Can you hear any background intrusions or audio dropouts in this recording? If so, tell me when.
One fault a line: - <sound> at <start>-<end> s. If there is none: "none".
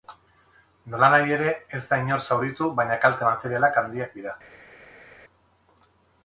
none